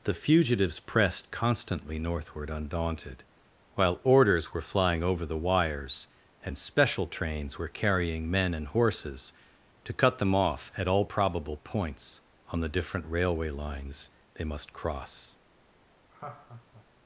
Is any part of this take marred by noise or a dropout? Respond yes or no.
yes